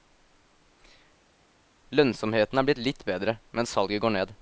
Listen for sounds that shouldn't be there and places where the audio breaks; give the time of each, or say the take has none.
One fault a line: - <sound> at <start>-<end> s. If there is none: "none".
none